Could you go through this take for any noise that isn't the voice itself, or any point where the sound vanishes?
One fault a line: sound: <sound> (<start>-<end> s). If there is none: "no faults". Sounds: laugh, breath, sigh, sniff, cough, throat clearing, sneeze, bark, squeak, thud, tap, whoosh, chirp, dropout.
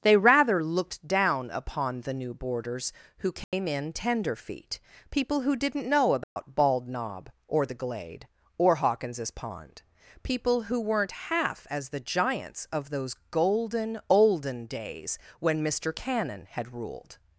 sound: dropout (3.4-3.5 s)
sound: dropout (6.2-6.4 s)